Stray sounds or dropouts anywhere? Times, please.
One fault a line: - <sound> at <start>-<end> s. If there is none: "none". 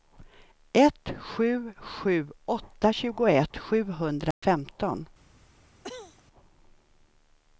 - dropout at 4.3-4.4 s
- cough at 5.8-6.2 s